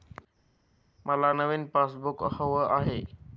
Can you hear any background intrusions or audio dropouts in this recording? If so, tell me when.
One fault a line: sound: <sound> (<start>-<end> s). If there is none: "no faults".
no faults